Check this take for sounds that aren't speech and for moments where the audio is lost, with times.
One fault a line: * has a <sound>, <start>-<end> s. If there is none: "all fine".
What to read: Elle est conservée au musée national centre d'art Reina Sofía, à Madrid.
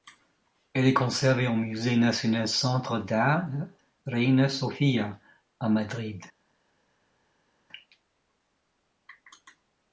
all fine